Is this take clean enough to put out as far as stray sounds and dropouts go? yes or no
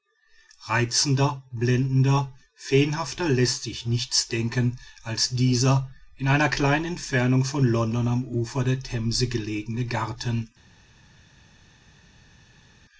yes